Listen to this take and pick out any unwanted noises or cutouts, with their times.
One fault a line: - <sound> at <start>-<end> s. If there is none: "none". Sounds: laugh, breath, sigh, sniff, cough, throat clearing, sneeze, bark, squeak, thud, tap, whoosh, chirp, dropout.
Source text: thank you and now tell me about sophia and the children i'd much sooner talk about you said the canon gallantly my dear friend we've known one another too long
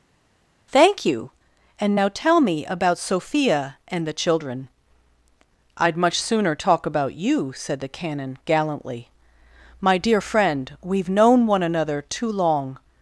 none